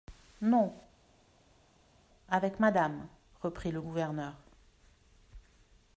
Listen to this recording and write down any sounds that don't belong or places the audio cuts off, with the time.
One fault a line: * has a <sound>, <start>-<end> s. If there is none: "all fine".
all fine